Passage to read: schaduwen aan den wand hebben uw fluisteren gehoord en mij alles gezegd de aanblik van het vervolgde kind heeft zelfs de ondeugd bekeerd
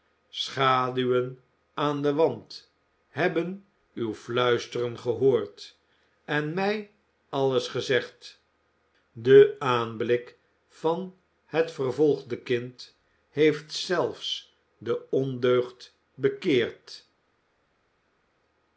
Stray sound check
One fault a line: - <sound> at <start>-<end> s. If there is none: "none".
none